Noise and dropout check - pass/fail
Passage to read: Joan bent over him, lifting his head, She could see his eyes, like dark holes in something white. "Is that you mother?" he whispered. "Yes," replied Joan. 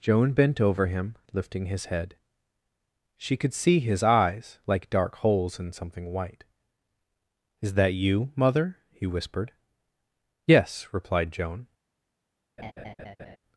fail